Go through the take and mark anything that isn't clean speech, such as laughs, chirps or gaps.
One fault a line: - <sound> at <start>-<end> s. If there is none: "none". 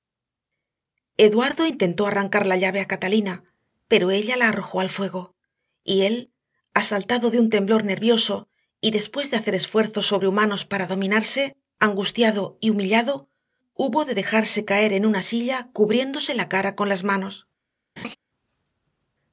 - laugh at 18.0-18.2 s